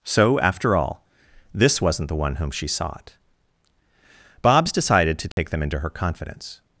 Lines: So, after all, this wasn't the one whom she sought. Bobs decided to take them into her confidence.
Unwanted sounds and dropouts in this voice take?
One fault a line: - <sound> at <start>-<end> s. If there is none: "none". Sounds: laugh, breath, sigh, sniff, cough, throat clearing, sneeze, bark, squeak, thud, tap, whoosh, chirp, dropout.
- dropout at 5.3-5.4 s